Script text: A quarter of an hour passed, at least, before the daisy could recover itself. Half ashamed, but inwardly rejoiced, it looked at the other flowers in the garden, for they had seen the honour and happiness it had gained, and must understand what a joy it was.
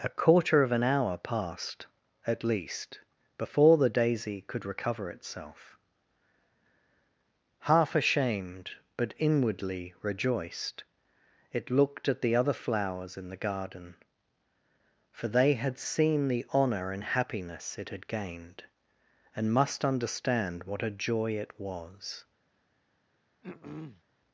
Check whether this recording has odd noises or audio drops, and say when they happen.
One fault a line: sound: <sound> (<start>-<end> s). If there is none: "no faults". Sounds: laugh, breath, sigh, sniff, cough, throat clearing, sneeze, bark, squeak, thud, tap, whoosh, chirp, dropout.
sound: throat clearing (23.4-24.0 s)